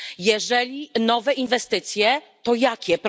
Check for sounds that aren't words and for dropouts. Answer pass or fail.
pass